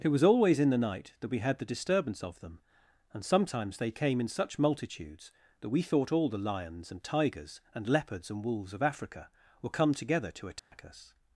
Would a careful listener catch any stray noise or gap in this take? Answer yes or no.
yes